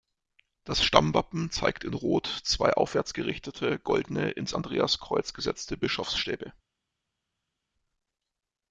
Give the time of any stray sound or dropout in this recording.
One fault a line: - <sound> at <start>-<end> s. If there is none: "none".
none